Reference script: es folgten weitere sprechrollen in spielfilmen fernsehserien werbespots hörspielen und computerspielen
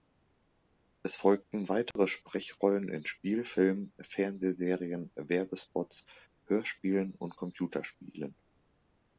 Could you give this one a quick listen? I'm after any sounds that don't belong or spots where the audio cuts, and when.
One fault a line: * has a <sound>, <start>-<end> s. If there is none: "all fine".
* has a dropout, 1.9-2.0 s